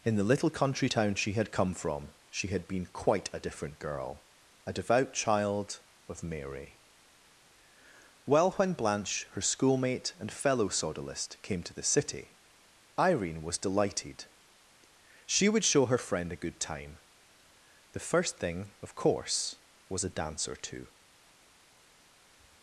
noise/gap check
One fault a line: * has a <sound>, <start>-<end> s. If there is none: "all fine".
all fine